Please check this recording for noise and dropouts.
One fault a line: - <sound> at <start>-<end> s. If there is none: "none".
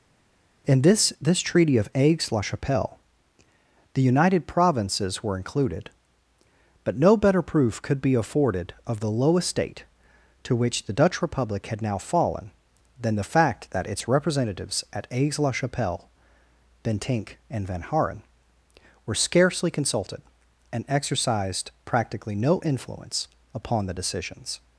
none